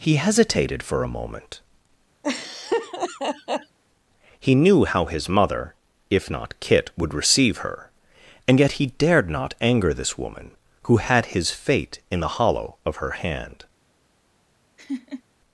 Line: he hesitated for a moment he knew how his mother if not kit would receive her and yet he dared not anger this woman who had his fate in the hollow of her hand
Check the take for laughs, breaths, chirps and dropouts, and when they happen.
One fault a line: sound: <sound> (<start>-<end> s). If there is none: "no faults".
sound: laugh (2.2-3.8 s)
sound: laugh (14.8-15.2 s)